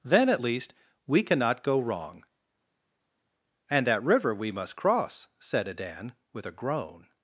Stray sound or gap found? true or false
false